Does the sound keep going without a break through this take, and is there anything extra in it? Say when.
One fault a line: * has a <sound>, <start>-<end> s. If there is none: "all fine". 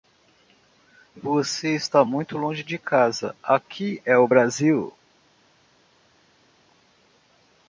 all fine